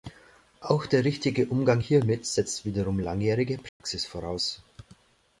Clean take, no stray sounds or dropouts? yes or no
no